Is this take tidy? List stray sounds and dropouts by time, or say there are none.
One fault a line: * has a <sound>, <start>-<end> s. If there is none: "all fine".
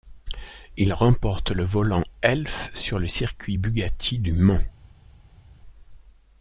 all fine